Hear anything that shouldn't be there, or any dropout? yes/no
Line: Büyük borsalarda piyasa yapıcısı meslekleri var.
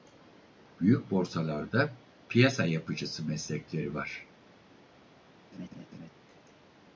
yes